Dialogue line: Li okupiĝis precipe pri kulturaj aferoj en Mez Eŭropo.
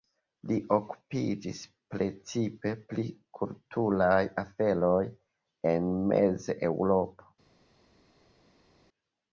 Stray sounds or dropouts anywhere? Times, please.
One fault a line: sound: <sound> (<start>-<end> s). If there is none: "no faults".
no faults